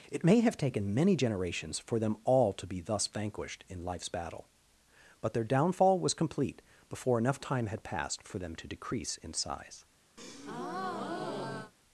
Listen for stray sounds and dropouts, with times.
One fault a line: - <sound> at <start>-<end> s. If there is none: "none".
- breath at 10.2-11.7 s